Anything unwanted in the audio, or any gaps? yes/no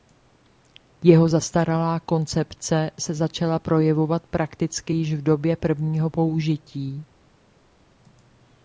no